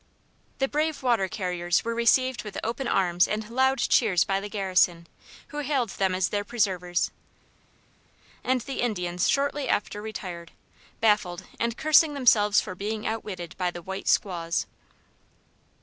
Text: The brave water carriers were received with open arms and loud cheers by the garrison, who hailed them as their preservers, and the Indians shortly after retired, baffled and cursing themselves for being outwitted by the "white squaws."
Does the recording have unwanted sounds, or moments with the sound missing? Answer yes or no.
no